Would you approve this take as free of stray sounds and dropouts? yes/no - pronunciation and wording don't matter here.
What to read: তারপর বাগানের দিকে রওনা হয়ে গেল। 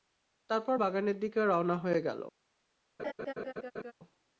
no